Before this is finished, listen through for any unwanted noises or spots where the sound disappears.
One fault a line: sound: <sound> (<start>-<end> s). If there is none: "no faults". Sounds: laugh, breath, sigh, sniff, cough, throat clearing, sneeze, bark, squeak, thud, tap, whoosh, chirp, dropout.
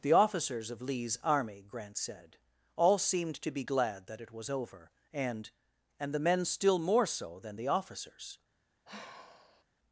sound: sigh (8.8-9.6 s)